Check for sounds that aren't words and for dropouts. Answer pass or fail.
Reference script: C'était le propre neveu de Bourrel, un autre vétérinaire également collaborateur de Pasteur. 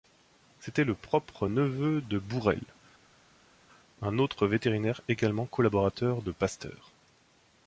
pass